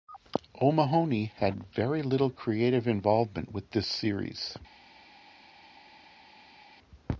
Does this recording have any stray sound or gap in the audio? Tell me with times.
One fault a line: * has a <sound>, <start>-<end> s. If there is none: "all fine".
all fine